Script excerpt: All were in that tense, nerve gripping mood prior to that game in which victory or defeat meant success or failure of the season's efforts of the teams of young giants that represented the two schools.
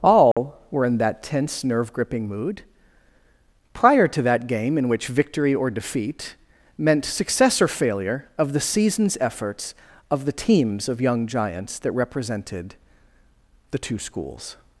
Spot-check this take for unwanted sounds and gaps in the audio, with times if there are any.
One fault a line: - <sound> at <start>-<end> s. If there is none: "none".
- dropout at 0.3-0.4 s